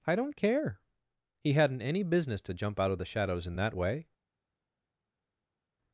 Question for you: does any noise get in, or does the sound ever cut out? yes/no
no